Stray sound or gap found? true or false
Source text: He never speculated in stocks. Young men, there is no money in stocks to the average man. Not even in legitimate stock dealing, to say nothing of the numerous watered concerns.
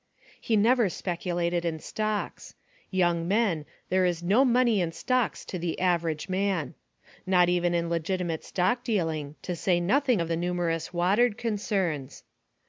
false